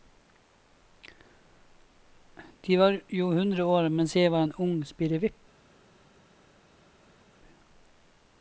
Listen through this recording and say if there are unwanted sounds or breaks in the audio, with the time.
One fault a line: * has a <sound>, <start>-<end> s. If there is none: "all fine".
all fine